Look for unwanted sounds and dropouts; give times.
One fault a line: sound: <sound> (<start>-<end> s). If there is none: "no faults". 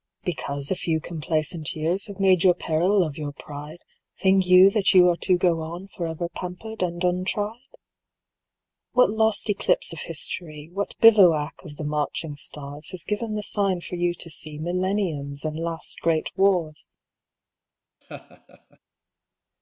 sound: laugh (18.0-18.8 s)